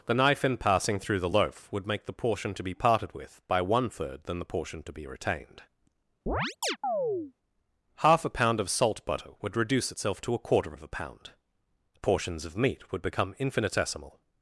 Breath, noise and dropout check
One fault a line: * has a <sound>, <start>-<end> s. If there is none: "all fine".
* has a chirp, 6.3-7.3 s